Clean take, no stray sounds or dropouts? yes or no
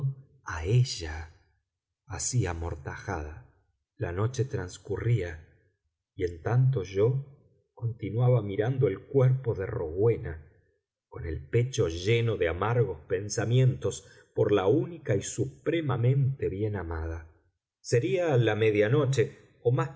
yes